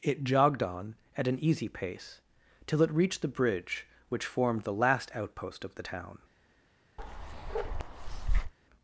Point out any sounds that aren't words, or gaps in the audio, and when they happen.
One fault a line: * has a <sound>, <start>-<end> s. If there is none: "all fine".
* has a bark, 7.0-8.5 s